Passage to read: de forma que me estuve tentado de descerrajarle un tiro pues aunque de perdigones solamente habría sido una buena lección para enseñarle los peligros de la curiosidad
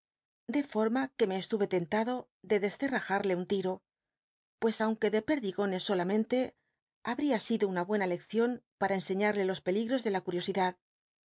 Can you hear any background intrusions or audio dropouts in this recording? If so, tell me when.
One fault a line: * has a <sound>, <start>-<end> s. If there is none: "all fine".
all fine